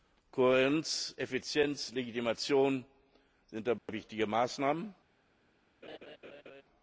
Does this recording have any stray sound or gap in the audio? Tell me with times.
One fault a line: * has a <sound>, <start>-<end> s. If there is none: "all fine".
* has a dropout, 3.8-3.9 s
* has a laugh, 5.8-6.6 s